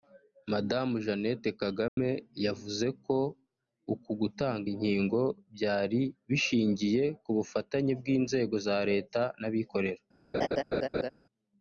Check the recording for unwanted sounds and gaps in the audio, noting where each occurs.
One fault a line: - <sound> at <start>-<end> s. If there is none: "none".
- dropout at 1.9-2.0 s
- laugh at 10.3-11.1 s